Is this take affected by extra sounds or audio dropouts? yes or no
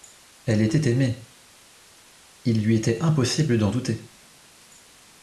no